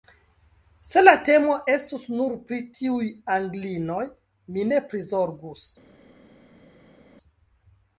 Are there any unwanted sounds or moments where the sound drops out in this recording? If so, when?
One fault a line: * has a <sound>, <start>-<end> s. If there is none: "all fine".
all fine